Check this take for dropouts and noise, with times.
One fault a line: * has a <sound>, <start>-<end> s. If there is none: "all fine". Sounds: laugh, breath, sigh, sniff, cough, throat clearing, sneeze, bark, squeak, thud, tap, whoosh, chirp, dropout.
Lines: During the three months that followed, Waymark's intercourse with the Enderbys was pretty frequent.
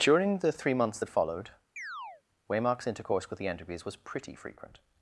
* has a chirp, 1.8-2.2 s